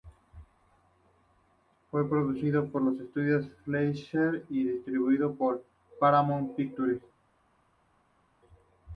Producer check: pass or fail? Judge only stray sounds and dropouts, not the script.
pass